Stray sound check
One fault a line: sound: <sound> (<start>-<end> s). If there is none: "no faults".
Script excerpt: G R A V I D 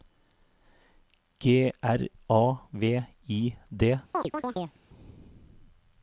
sound: chirp (4.1-4.8 s)